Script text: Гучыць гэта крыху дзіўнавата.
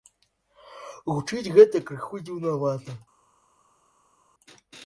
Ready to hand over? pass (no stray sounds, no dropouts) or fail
pass